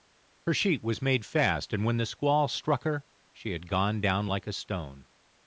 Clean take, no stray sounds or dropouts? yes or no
yes